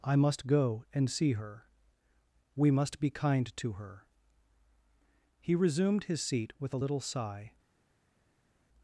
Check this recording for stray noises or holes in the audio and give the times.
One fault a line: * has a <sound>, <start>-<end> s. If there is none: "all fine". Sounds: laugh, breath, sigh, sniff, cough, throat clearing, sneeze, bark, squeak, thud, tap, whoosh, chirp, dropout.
all fine